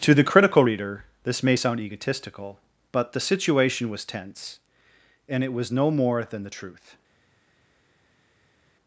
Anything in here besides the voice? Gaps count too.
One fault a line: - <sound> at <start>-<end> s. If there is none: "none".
none